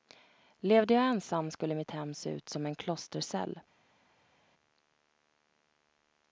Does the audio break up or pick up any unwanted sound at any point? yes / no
no